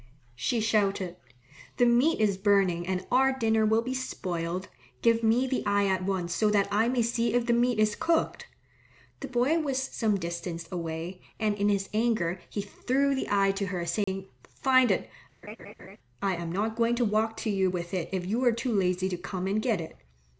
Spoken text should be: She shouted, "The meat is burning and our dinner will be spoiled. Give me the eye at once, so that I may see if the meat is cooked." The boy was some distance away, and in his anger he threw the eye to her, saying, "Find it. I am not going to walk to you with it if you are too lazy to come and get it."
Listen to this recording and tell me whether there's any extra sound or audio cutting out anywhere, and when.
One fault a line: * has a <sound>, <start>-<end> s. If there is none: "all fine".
* has a dropout, 14.0-14.1 s
* has a laugh, 15.4-16.0 s